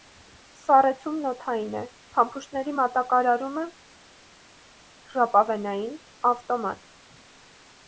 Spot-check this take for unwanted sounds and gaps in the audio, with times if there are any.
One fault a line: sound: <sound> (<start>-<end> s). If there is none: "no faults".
no faults